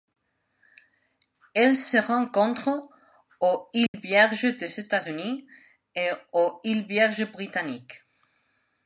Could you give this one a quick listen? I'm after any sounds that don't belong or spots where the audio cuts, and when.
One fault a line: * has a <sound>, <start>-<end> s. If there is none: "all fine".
* has a dropout, 3.9-3.9 s